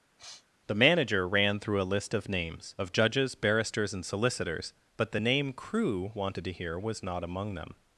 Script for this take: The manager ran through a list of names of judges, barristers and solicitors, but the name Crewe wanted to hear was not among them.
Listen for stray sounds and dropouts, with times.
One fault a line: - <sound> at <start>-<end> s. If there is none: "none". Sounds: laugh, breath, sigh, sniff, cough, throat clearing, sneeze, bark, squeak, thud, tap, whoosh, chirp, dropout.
- sniff at 0.2-0.5 s